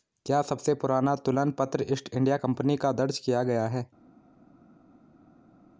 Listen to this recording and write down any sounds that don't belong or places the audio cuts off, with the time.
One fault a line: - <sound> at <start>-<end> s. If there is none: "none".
none